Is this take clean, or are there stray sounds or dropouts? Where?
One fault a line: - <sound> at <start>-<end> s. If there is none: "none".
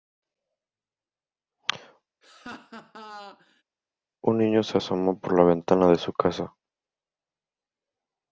- laugh at 2.2-3.6 s